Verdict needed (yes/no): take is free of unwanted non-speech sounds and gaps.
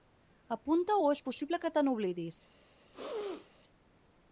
no